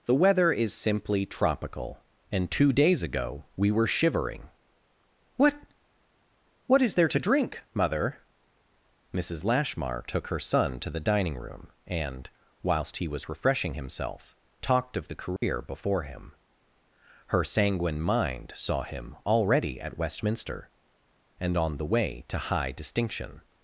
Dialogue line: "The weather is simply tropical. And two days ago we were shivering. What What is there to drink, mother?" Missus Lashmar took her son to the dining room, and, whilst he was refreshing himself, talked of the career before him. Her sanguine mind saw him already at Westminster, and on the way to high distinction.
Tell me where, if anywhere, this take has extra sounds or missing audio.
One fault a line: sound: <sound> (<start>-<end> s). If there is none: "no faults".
sound: dropout (15.4-15.4 s)